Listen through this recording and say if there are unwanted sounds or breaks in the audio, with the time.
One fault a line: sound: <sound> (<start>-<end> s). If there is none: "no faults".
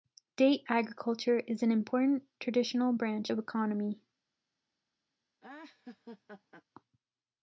sound: laugh (5.4-6.6 s)